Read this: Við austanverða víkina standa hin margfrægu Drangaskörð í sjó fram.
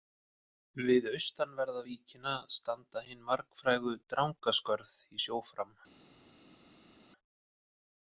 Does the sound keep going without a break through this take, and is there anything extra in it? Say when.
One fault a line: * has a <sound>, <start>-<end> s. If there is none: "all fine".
all fine